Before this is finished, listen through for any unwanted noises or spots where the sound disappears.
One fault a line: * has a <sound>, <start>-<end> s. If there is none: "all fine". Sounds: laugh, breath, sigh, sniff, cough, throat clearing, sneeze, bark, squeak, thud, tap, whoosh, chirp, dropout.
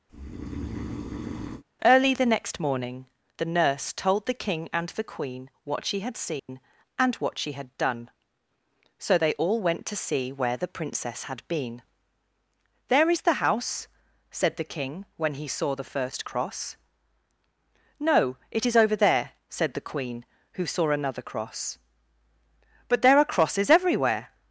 * has a breath, 0.1-1.6 s
* has a dropout, 6.4-6.5 s